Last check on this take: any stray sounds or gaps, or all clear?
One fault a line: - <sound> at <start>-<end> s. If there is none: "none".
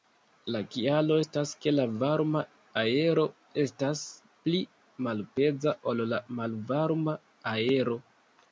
none